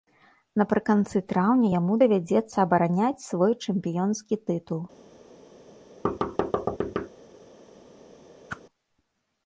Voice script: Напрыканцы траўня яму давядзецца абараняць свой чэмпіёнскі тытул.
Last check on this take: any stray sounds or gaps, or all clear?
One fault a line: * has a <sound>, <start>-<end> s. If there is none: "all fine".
* has a thud, 6.0-7.1 s
* has a whoosh, 8.5-8.6 s